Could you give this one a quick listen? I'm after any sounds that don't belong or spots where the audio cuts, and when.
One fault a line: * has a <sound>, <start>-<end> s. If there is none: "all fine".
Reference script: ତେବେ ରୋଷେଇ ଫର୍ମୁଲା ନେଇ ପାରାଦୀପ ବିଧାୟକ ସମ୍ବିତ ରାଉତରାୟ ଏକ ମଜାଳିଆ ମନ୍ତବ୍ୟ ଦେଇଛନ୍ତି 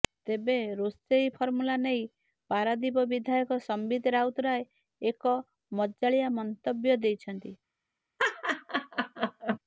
* has a laugh, 8.2-9.6 s